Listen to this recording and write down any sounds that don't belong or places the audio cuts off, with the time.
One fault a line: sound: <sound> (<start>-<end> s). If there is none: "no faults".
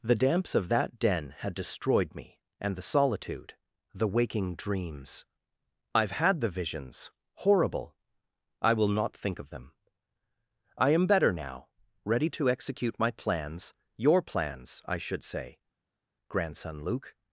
no faults